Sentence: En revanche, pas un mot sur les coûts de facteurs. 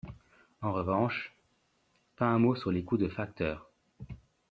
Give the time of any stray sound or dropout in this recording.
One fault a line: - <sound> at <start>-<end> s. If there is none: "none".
none